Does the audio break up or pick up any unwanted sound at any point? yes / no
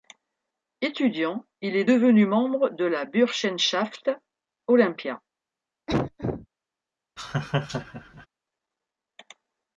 yes